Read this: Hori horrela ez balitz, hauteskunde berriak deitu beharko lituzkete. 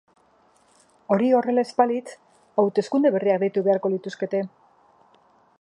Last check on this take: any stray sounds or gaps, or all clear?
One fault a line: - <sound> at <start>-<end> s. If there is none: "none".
none